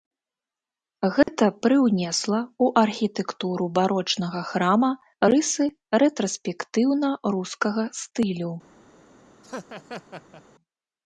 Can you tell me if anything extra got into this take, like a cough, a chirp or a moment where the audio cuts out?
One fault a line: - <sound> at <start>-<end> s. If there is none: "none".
- dropout at 1.2-1.3 s
- laugh at 9.4-10.4 s